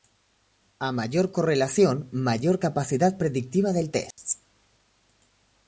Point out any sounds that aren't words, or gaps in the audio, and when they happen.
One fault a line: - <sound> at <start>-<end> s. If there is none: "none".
- dropout at 4.1-4.2 s